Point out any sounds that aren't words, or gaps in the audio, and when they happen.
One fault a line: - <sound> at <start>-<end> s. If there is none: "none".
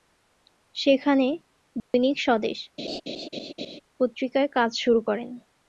- dropout at 1.8-1.9 s
- laugh at 2.8-3.8 s